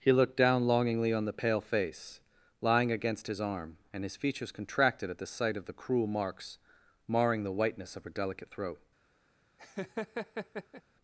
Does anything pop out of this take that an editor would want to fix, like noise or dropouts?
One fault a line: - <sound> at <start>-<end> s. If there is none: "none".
- laugh at 9.6-10.8 s